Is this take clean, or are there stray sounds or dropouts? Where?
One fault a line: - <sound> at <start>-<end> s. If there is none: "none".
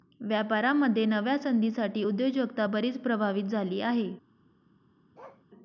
- bark at 5.1-5.4 s